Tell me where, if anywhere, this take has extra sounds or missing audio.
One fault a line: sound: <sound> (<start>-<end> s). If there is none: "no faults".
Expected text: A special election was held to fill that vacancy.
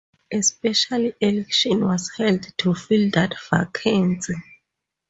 no faults